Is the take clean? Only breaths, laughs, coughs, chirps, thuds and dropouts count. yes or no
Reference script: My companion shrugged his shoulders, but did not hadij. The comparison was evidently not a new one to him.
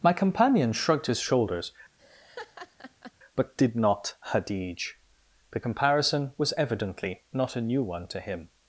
no